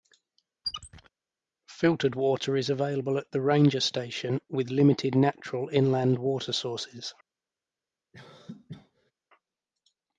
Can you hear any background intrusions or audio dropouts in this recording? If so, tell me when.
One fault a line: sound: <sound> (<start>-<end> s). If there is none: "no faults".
sound: squeak (0.6-1.1 s)
sound: cough (8.1-9.1 s)